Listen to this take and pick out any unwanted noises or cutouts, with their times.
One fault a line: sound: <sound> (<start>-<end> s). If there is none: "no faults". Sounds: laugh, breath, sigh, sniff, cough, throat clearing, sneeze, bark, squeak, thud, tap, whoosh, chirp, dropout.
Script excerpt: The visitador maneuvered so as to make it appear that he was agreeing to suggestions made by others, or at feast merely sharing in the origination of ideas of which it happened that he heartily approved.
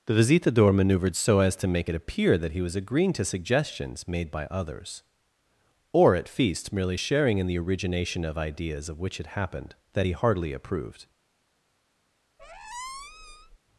sound: squeak (12.4-13.6 s)